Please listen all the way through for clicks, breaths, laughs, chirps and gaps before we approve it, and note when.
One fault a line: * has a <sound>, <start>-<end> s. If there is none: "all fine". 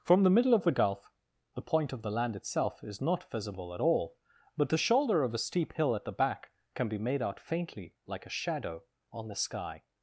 all fine